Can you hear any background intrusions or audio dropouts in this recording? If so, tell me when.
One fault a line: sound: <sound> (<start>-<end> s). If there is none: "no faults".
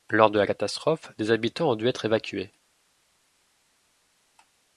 no faults